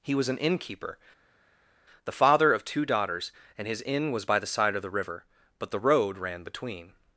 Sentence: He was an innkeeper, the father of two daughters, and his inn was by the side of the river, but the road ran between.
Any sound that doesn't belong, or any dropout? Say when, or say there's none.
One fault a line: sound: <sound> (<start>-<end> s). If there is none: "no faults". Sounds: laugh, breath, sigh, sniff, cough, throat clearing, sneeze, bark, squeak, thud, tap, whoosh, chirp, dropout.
no faults